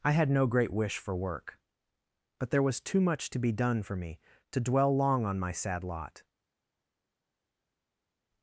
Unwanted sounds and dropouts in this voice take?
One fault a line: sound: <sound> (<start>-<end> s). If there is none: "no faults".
no faults